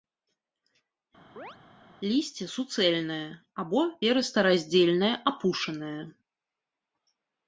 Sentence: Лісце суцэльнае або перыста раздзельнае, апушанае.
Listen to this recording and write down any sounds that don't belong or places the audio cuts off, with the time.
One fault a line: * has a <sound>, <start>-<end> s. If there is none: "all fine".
* has a chirp, 1.4-1.6 s